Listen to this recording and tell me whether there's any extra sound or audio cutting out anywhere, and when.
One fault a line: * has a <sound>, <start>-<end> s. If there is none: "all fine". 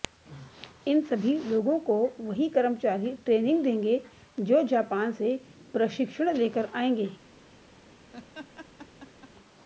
* has a laugh, 8.1-9.3 s